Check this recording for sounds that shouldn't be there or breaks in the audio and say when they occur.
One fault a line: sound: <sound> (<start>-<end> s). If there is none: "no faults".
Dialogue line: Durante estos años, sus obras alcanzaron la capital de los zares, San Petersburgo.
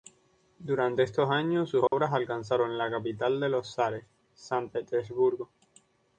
sound: dropout (1.9-1.9 s)